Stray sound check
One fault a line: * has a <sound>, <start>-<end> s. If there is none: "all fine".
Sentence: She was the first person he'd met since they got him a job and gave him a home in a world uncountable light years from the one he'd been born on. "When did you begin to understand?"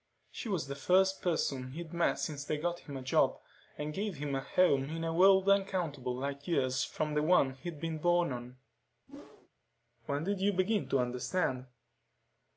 * has a whoosh, 9.1-9.5 s